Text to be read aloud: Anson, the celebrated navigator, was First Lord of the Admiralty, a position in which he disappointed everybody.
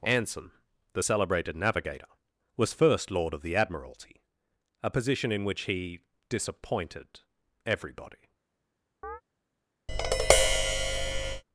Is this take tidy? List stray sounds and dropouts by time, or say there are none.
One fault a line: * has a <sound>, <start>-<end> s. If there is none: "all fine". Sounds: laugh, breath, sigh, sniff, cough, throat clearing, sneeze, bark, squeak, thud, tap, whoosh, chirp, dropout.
* has a chirp, 9.0-9.2 s
* has a tap, 9.9-11.4 s